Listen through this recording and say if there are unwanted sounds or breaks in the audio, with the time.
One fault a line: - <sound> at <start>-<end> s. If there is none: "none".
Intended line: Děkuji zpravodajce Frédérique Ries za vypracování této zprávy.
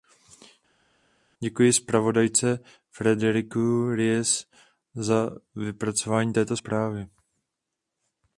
none